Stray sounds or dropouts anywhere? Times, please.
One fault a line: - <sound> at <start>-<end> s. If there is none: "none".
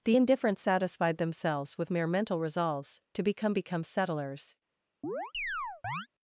- chirp at 5.0-6.1 s